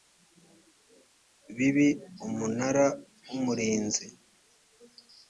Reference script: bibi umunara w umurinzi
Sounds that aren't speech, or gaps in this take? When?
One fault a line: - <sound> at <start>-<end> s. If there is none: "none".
none